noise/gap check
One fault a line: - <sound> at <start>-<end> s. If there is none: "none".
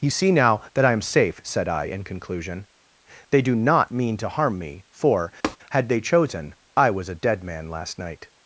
- tap at 5.4-5.6 s